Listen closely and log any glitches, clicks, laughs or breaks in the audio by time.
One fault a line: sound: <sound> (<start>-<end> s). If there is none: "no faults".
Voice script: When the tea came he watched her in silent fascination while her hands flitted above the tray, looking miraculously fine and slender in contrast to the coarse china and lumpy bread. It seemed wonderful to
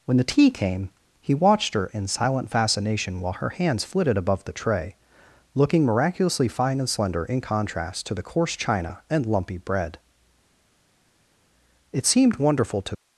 no faults